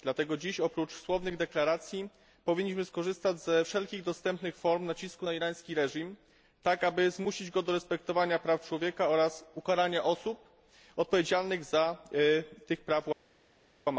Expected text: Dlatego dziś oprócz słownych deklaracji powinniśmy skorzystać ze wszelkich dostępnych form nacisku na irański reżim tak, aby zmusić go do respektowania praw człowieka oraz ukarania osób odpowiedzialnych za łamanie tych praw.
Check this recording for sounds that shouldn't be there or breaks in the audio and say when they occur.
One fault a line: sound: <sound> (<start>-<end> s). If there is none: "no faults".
no faults